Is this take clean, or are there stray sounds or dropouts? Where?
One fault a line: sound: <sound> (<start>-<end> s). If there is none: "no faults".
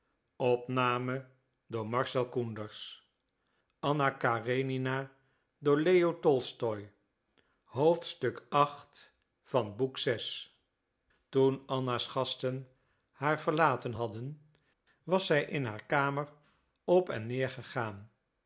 no faults